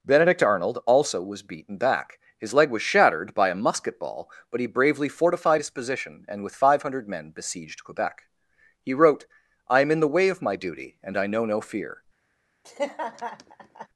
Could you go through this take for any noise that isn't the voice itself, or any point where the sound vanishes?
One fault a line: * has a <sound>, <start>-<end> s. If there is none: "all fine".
* has a laugh, 12.6-13.9 s